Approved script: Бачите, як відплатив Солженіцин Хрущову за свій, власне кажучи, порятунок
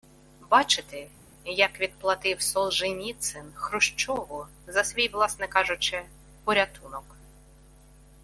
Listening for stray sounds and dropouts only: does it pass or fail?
pass